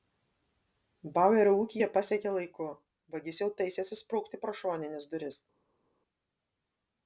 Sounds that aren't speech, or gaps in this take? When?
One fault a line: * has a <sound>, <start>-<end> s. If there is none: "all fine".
all fine